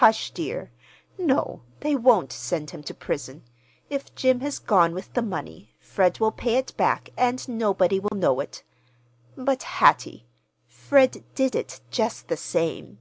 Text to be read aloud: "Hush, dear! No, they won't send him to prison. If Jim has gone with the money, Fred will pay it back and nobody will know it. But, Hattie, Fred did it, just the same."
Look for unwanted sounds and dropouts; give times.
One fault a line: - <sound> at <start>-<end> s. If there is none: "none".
- dropout at 8.1-8.1 s